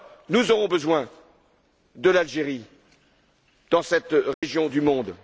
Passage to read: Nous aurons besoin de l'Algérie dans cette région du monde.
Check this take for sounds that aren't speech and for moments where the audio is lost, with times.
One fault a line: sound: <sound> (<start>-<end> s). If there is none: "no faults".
sound: dropout (4.3-4.4 s)